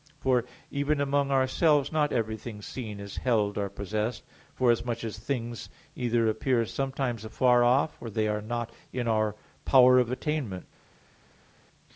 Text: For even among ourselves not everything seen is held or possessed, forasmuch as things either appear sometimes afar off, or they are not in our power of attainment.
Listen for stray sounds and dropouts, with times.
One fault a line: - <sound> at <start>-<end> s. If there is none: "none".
none